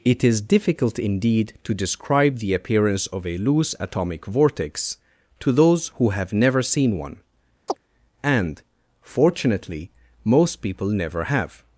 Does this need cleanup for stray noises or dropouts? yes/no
yes